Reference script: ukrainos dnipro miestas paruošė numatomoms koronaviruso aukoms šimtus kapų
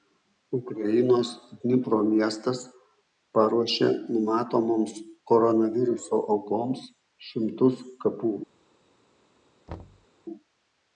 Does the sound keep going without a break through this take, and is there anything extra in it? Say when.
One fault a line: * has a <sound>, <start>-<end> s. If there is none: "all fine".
* has a thud, 9.7-10.1 s